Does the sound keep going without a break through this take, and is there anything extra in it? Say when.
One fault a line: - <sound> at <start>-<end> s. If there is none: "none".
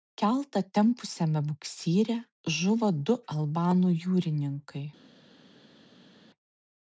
none